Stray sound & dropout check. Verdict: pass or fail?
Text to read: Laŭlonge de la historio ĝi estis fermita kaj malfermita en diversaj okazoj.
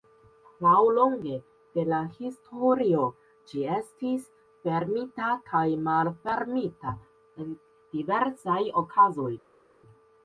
pass